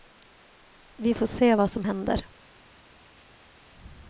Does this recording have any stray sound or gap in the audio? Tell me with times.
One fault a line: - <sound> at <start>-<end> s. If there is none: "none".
none